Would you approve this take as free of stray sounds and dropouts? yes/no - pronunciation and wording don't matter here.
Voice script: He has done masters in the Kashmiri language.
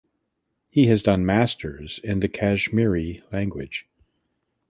yes